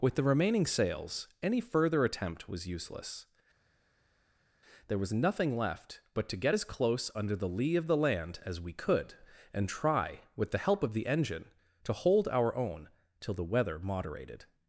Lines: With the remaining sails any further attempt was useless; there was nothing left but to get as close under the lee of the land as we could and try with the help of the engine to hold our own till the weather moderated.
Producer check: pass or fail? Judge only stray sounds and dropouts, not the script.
pass